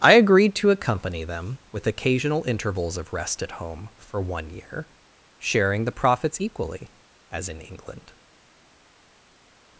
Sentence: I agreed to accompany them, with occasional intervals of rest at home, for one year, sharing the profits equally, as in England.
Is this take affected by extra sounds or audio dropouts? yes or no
no